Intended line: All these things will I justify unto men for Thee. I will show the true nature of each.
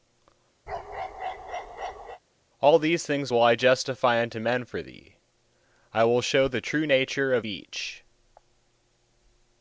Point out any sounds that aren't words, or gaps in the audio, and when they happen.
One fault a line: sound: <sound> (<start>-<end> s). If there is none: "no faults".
sound: bark (0.7-2.2 s)